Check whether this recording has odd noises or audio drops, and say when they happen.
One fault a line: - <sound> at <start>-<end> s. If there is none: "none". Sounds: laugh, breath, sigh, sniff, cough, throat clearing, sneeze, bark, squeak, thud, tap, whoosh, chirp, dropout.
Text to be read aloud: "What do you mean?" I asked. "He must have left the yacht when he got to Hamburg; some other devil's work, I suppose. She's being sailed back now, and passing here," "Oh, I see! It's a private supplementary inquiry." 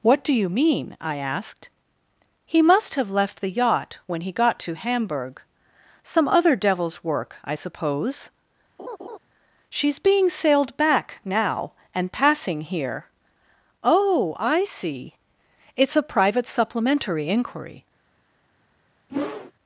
- laugh at 8.8-9.2 s
- whoosh at 19.1-19.5 s